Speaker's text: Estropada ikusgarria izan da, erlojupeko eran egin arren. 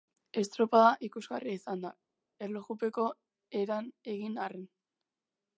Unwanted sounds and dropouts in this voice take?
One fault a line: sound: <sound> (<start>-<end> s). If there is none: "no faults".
no faults